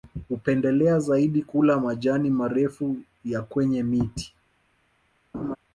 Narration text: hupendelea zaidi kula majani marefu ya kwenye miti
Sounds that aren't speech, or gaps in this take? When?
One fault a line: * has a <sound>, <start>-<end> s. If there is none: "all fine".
* has a laugh, 5.3-5.6 s